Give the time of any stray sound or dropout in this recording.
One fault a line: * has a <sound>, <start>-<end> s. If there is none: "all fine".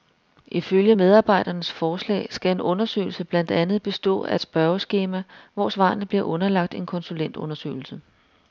all fine